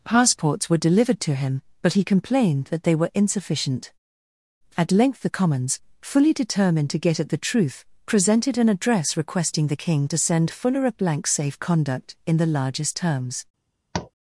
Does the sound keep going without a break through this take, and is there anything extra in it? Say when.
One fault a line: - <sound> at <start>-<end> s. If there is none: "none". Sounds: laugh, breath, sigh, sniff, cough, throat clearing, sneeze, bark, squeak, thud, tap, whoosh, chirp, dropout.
- tap at 13.9-14.1 s